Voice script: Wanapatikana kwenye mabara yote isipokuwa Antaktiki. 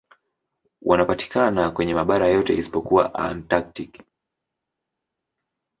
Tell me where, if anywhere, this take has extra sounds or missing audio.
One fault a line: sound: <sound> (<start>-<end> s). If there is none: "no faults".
no faults